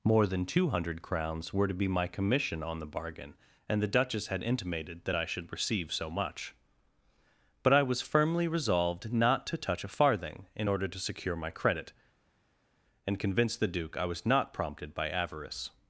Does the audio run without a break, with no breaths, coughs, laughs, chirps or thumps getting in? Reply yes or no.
yes